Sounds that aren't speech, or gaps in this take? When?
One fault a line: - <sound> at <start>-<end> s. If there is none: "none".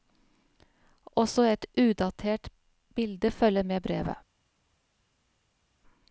none